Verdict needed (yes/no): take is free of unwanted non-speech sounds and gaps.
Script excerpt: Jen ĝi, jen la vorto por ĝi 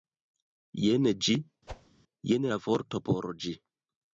no